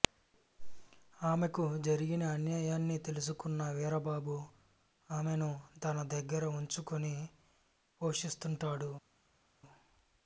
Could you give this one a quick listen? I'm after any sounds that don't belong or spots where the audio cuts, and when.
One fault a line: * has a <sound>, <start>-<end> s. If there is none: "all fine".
all fine